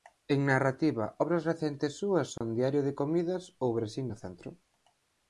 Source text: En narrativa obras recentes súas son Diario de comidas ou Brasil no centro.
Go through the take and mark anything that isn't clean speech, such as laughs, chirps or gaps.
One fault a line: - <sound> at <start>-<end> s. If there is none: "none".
- dropout at 2.4-2.4 s